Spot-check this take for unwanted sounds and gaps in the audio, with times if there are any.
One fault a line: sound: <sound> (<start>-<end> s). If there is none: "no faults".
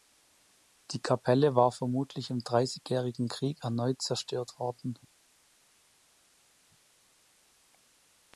no faults